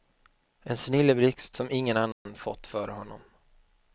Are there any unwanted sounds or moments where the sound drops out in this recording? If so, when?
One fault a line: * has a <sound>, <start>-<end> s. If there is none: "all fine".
* has a dropout, 2.1-2.3 s